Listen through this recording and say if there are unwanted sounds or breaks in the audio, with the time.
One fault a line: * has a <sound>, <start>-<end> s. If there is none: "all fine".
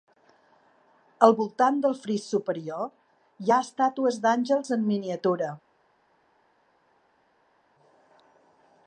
all fine